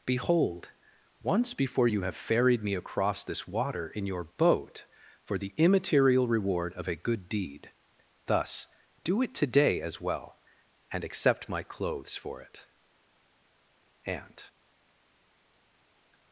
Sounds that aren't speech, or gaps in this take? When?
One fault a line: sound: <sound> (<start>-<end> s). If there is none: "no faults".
no faults